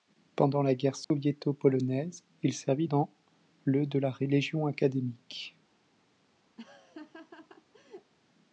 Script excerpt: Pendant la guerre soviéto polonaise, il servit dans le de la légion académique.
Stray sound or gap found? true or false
true